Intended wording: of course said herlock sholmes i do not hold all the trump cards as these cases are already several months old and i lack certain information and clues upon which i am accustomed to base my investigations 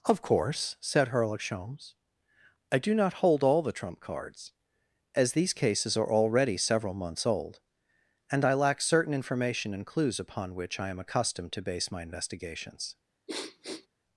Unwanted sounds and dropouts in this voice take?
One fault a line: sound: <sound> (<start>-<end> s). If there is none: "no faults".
sound: sniff (13.3-13.9 s)